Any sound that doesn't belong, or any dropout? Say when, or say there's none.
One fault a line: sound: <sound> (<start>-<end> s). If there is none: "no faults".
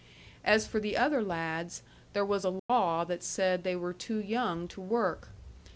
sound: dropout (2.6-2.7 s)